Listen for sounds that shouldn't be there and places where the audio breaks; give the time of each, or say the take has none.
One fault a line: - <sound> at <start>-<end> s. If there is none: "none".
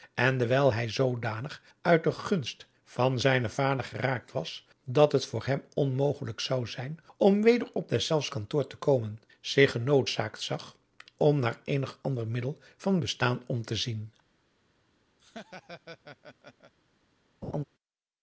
- laugh at 15.2-16.7 s
- laugh at 17.4-17.6 s